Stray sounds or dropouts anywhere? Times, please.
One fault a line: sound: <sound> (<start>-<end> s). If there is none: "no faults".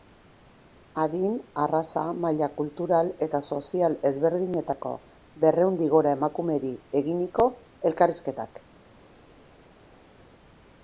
no faults